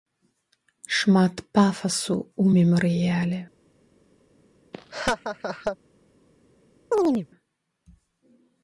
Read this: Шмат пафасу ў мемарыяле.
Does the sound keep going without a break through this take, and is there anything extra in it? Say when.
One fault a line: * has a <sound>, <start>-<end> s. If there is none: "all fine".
* has a laugh, 4.7-5.8 s
* has a chirp, 6.9-7.3 s